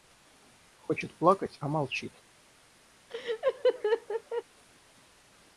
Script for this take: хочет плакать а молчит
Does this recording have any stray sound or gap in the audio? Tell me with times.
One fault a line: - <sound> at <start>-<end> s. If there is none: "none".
- laugh at 3.1-4.4 s